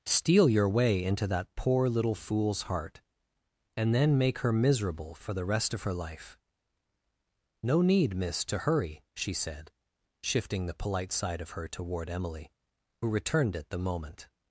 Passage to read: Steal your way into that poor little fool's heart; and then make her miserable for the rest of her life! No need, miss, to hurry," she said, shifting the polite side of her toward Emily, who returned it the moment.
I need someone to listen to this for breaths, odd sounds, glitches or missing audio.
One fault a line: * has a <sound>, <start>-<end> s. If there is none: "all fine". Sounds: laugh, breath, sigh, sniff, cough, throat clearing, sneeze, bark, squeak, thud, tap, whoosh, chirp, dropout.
all fine